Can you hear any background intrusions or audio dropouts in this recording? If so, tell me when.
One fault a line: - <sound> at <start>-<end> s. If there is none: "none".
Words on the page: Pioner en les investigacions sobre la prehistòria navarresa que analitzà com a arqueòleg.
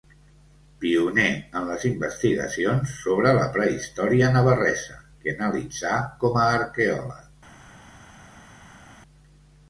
none